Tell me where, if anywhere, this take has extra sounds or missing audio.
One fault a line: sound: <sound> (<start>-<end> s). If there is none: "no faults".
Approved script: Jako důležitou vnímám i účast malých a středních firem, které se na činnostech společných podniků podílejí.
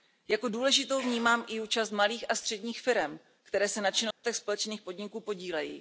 sound: dropout (4.1-4.2 s)